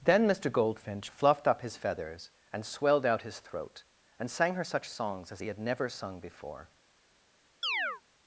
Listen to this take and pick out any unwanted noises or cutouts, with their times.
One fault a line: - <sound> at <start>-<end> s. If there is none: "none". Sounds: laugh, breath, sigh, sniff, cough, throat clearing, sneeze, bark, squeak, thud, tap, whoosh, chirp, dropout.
- chirp at 7.6-8.0 s